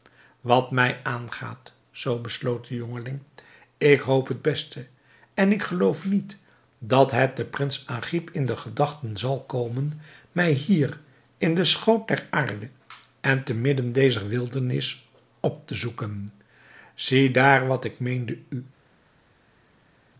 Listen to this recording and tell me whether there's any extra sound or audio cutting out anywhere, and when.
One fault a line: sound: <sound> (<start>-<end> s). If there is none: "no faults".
no faults